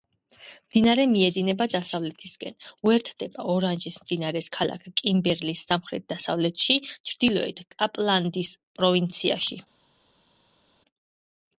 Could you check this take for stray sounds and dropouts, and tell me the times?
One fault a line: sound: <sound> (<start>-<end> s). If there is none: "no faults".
no faults